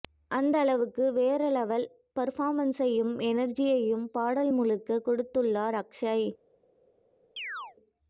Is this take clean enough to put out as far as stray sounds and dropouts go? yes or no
no